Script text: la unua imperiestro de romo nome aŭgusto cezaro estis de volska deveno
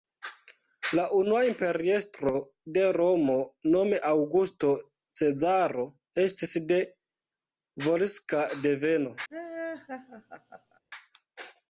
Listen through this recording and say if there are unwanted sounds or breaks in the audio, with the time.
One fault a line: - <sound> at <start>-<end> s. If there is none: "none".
- laugh at 9.3-10.8 s